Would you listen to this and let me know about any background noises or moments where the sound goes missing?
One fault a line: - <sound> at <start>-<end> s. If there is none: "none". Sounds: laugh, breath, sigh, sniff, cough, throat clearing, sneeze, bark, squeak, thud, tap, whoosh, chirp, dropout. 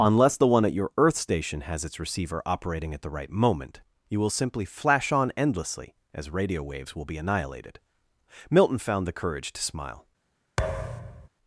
- thud at 10.6-11.3 s